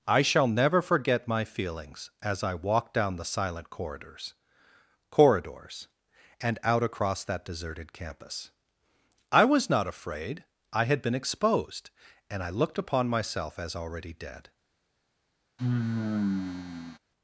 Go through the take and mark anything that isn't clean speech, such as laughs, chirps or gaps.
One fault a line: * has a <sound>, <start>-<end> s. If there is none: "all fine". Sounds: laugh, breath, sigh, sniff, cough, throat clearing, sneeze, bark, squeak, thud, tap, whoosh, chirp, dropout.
* has a sigh, 15.6-17.0 s